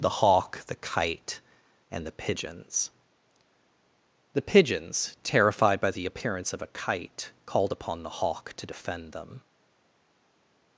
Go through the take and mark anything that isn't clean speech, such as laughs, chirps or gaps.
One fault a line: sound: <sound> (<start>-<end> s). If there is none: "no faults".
no faults